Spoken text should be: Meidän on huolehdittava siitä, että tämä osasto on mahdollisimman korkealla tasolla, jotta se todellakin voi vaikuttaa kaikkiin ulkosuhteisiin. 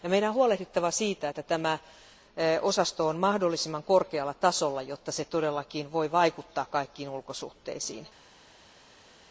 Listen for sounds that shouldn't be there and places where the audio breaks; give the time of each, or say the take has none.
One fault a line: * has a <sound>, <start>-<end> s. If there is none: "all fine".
all fine